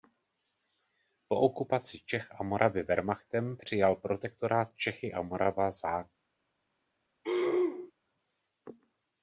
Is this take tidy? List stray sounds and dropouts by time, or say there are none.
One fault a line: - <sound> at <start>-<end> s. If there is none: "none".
- throat clearing at 7.2-7.9 s